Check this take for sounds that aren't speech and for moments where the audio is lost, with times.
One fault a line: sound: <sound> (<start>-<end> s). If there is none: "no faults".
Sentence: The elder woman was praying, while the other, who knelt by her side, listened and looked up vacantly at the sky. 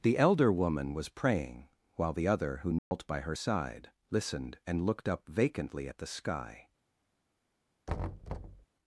sound: dropout (2.8-2.9 s)
sound: thud (7.9-8.7 s)